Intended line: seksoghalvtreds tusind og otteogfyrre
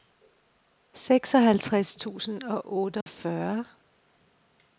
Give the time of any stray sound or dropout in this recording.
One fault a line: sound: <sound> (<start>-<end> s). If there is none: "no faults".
sound: dropout (3.0-3.1 s)